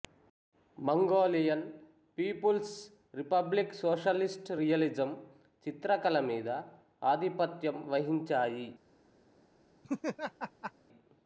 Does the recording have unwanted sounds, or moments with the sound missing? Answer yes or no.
yes